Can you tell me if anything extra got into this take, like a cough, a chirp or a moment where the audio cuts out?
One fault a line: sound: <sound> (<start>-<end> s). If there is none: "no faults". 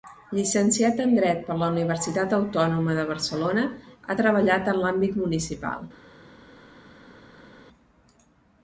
no faults